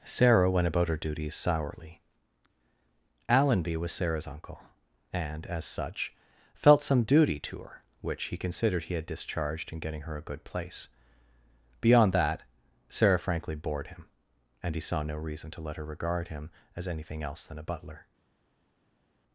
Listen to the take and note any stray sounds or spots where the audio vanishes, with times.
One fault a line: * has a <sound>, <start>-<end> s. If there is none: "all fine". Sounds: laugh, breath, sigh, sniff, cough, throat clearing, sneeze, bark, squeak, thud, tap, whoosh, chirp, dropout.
all fine